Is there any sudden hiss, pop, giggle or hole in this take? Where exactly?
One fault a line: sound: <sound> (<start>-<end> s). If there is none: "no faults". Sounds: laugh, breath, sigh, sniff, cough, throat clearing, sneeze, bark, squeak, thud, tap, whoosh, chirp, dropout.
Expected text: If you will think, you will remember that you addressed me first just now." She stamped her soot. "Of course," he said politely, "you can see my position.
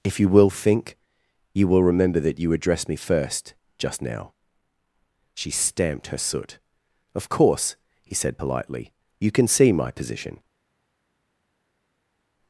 no faults